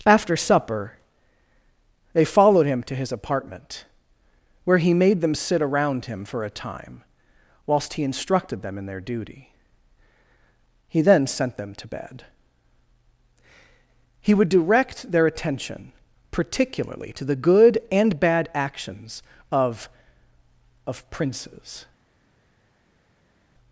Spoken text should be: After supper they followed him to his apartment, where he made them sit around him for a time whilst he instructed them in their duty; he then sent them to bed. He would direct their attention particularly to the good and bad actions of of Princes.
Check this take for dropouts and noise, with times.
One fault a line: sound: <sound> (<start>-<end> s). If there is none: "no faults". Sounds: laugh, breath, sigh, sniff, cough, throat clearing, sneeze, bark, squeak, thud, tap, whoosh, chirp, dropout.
no faults